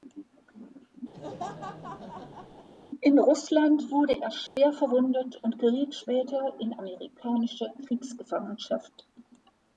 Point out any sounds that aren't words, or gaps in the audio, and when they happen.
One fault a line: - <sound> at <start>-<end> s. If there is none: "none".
- laugh at 1.1-2.7 s
- dropout at 4.5-4.6 s